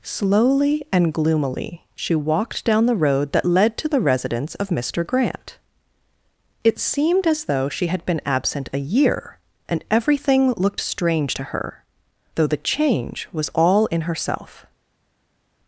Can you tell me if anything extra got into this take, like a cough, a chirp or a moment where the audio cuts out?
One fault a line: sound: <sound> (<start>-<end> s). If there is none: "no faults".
no faults